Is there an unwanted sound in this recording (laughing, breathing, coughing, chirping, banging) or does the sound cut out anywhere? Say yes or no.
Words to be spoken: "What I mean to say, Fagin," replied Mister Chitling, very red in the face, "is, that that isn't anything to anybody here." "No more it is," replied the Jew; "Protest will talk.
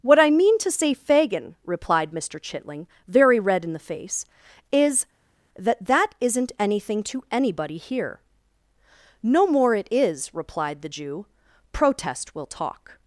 no